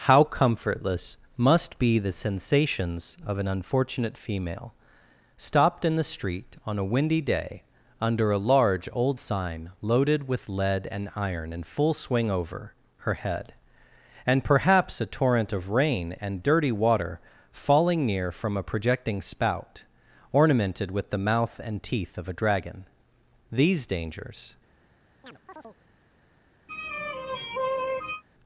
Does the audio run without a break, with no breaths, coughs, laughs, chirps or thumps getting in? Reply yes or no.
no